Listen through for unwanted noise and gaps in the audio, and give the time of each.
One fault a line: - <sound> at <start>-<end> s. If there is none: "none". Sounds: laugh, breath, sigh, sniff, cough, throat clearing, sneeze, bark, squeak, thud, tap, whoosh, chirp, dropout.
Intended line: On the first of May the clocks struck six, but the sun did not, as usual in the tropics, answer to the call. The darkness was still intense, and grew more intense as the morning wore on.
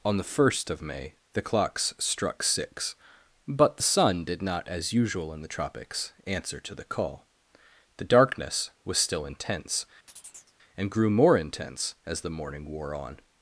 - chirp at 10.1-10.5 s